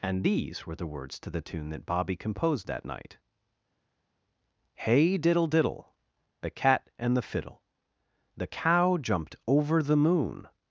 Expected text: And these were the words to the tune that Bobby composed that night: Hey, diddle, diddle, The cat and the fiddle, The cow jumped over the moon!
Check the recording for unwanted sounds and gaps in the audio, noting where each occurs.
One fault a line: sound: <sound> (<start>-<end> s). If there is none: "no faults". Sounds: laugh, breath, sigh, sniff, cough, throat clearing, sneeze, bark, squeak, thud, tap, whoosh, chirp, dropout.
no faults